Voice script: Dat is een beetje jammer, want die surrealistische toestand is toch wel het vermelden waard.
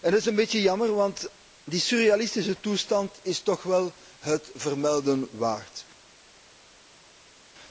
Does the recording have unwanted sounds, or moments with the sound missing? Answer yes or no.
no